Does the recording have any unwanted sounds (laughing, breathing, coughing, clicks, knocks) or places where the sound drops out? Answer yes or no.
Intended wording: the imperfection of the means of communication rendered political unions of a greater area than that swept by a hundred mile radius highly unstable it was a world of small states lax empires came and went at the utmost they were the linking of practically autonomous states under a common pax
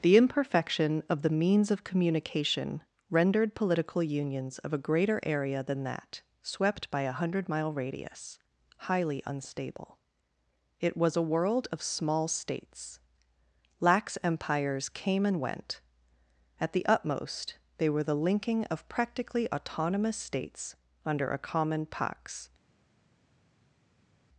no